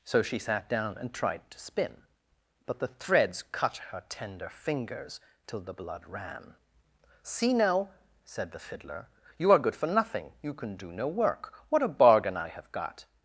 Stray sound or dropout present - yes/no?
no